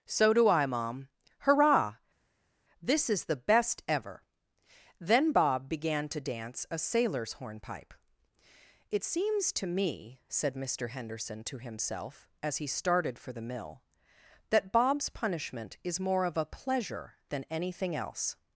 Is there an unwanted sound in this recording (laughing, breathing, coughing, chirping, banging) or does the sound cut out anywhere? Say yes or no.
no